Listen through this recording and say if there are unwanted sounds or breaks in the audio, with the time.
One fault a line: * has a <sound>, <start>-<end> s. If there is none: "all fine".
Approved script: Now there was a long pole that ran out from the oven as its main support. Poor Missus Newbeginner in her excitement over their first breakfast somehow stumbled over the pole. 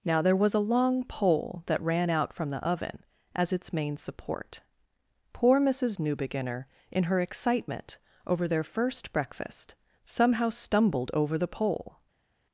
all fine